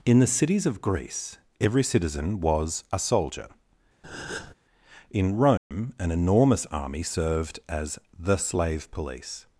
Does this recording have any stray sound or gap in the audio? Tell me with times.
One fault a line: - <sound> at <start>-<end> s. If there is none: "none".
- breath at 4.0-4.5 s
- dropout at 5.6-5.7 s